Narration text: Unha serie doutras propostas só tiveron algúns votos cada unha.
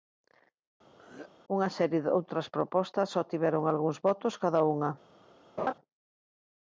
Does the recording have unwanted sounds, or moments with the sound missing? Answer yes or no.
yes